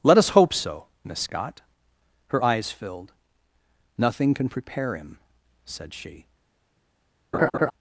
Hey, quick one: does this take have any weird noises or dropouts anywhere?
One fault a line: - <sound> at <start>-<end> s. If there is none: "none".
- laugh at 7.3-7.7 s